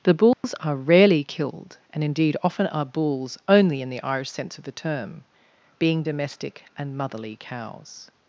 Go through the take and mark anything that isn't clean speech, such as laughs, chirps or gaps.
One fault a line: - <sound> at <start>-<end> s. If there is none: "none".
- dropout at 0.3-0.4 s